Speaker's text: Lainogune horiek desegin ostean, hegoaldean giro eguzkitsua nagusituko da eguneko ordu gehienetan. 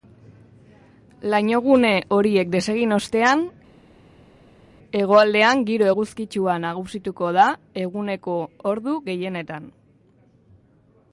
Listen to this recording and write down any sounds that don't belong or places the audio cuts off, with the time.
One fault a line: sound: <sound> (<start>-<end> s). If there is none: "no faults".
no faults